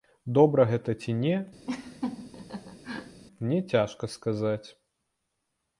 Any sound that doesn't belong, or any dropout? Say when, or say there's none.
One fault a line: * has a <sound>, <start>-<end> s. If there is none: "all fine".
* has a laugh, 1.7-3.2 s